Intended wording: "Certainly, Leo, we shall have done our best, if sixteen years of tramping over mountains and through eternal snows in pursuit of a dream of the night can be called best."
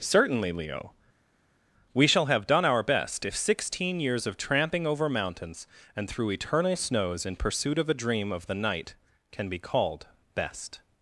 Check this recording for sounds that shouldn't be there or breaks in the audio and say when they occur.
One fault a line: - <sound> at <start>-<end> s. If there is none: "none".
none